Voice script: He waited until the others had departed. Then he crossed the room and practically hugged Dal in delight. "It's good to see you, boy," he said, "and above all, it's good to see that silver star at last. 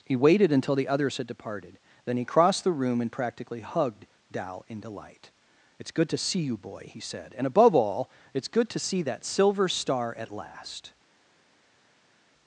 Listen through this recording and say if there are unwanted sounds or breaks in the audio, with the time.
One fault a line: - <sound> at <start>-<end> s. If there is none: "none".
none